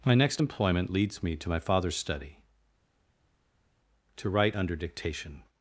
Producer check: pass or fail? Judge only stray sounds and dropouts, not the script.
pass